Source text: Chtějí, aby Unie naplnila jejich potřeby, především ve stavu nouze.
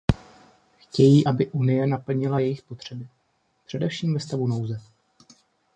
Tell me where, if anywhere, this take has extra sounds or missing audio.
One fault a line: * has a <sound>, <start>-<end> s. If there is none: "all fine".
all fine